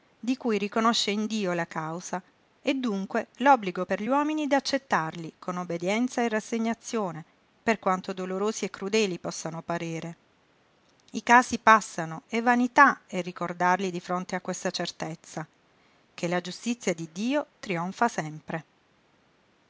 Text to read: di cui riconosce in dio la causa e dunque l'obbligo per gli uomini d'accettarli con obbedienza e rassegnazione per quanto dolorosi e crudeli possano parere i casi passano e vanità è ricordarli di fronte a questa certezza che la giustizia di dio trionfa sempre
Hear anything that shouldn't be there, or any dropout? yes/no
no